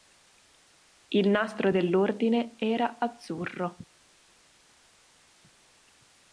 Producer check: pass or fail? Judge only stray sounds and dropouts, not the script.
pass